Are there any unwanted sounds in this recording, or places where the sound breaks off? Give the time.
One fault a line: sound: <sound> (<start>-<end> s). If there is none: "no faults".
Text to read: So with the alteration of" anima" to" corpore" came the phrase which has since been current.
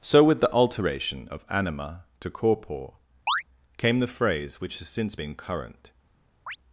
sound: chirp (3.3-3.4 s)
sound: chirp (6.5-6.6 s)